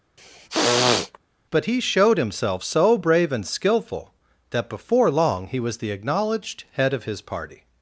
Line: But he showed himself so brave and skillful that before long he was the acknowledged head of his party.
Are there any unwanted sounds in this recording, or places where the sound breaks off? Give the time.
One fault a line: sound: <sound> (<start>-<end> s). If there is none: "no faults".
sound: throat clearing (0.2-1.2 s)